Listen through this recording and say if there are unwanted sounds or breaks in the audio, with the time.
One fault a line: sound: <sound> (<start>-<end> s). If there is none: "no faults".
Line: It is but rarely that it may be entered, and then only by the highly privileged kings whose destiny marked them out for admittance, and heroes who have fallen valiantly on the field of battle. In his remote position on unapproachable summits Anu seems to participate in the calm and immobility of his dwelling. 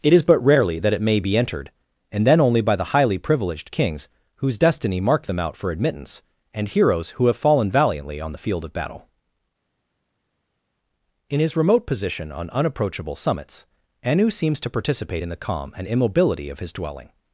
no faults